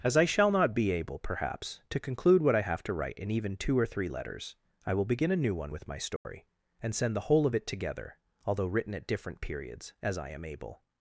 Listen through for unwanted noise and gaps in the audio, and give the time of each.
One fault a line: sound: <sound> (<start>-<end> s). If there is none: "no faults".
sound: dropout (6.2-6.2 s)